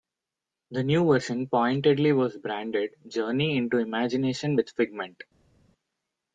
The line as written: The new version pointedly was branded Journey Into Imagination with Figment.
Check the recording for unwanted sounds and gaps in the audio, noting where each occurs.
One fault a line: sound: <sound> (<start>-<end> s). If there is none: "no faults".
no faults